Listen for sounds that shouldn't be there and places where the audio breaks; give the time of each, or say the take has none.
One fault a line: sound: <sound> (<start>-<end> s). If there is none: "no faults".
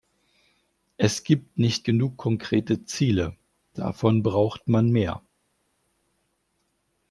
no faults